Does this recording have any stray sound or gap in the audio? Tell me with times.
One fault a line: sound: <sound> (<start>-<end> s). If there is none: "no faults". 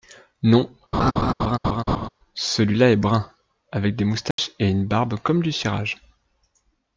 sound: laugh (0.9-2.1 s)
sound: dropout (4.3-4.4 s)